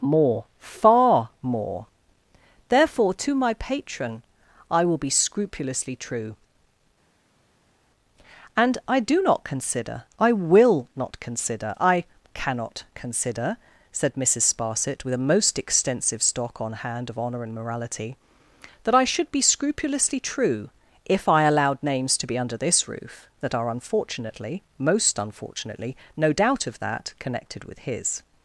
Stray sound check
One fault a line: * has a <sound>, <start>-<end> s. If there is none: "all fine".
all fine